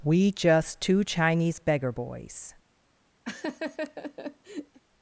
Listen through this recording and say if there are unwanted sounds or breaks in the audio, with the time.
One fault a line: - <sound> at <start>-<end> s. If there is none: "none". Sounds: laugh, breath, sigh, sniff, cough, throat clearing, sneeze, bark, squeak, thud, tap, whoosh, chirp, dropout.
- laugh at 3.3-4.8 s